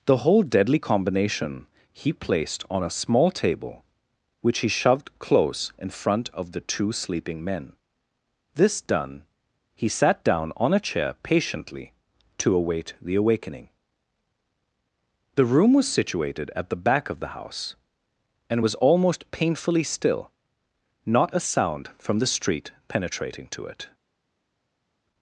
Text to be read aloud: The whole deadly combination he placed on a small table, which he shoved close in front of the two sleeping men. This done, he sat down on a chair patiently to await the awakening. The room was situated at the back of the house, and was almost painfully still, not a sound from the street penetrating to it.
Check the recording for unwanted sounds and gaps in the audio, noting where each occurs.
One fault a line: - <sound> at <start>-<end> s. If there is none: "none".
none